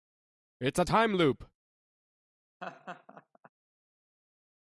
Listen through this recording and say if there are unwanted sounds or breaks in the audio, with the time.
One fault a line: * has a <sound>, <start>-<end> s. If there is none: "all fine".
* has a laugh, 2.6-3.5 s